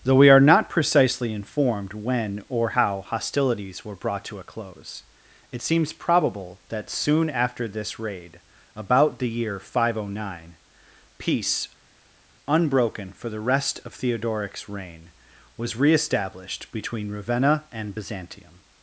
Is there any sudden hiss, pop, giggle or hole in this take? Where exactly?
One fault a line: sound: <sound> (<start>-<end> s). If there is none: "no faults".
no faults